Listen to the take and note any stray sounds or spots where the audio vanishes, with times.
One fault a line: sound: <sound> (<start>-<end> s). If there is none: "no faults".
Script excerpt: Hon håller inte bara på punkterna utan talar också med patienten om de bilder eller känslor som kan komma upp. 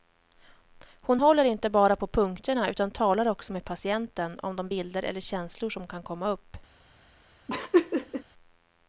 sound: laugh (7.5-8.2 s)